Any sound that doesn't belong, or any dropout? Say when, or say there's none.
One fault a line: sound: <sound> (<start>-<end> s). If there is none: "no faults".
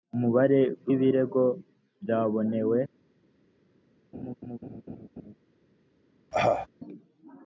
sound: laugh (4.1-5.3 s)
sound: cough (6.3-6.7 s)